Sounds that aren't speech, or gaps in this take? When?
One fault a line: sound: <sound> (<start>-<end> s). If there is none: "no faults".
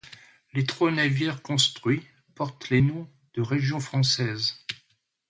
no faults